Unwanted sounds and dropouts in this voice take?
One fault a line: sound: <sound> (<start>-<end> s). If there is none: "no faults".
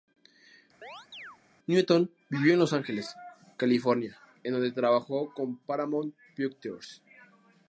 sound: chirp (0.8-1.4 s)